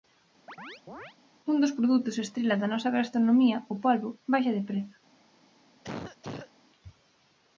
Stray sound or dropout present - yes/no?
yes